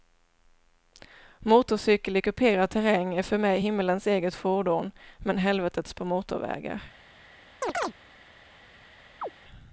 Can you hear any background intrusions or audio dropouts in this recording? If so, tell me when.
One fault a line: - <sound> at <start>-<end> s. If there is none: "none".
- chirp at 7.6-7.9 s
- chirp at 9.2-9.3 s